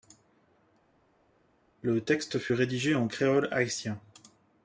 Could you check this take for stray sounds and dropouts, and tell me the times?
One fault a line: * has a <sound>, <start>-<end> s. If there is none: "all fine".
all fine